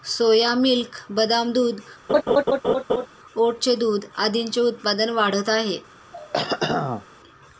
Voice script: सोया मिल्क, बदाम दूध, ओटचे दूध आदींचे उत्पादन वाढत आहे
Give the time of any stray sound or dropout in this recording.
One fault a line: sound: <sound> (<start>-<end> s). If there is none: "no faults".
sound: laugh (2.1-3.1 s)
sound: throat clearing (6.1-7.1 s)